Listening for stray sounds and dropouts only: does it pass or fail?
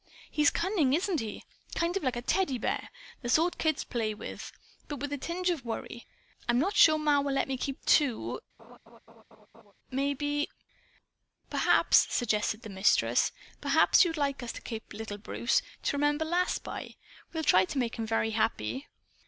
fail